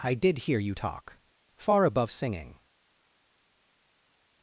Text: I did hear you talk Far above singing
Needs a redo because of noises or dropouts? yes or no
no